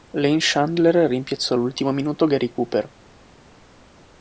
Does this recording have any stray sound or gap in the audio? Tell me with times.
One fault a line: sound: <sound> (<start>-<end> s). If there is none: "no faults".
no faults